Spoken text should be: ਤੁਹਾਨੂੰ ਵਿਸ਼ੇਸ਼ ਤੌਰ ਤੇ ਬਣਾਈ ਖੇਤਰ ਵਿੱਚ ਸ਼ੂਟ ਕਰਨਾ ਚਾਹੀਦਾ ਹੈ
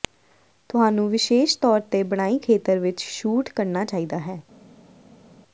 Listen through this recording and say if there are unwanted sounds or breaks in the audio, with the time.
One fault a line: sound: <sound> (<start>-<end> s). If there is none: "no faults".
no faults